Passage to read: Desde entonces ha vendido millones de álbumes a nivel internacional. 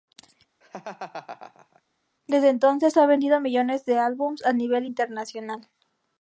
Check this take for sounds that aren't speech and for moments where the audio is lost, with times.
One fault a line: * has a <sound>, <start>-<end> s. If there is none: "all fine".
* has a laugh, 0.6-1.8 s